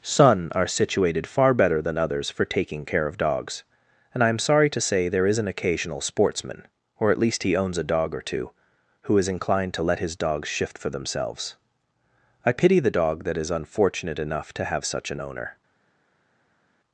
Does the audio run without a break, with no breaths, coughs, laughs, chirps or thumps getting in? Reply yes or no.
yes